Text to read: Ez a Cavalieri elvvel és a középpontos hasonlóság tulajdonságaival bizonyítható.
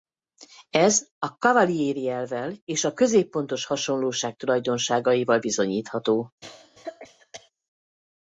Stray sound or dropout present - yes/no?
yes